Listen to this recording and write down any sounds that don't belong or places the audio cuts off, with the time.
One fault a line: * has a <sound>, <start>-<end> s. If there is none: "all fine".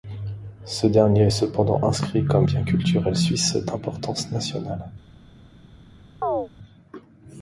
* has a chirp, 6.2-6.5 s